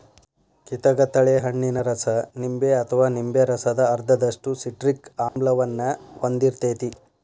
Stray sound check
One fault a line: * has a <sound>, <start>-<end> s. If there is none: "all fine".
* has a dropout, 5.3-5.4 s